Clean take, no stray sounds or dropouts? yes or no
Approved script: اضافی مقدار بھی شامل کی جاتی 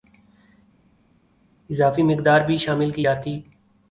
yes